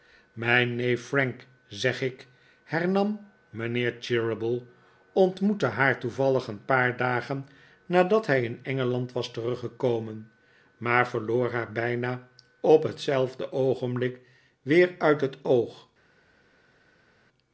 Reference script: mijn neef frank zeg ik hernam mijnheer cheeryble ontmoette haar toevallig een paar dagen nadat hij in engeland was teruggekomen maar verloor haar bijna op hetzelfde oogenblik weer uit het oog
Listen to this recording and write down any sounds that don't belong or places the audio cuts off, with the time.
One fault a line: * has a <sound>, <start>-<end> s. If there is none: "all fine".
all fine